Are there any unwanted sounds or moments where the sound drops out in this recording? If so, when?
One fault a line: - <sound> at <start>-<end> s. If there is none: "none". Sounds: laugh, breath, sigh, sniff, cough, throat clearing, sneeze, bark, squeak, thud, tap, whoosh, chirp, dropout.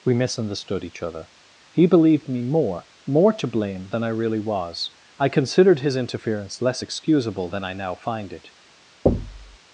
- thud at 9.1-9.6 s